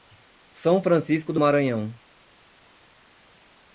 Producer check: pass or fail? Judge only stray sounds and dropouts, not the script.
pass